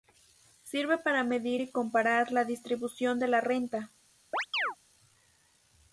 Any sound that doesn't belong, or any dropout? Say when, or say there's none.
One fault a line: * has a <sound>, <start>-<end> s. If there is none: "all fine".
* has a chirp, 4.3-4.8 s